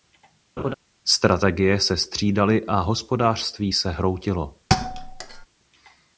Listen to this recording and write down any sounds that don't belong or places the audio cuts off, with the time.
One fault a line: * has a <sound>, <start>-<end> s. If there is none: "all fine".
* has a laugh, 0.6-0.7 s
* has a thud, 4.7-5.5 s